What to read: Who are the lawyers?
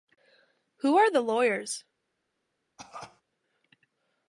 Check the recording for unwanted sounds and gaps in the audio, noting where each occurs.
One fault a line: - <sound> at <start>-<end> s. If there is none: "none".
- cough at 2.8-3.2 s